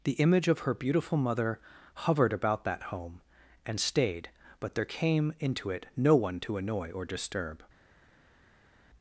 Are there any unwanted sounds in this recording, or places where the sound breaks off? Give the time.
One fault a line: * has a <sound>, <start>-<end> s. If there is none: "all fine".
all fine